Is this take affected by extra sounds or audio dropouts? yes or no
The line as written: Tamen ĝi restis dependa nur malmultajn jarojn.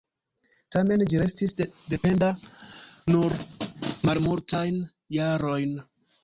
no